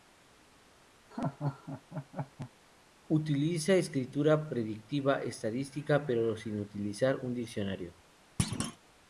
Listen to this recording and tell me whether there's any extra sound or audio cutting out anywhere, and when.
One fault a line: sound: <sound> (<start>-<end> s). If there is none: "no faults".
sound: laugh (1.1-2.5 s)
sound: thud (8.4-8.8 s)